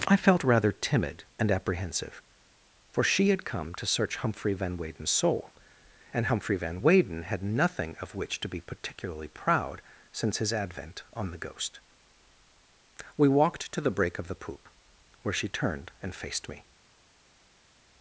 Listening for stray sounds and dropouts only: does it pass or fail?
pass